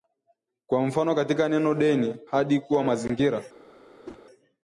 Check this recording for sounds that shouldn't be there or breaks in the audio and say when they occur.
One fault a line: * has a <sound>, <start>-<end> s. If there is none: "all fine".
* has a whoosh, 4.0-4.2 s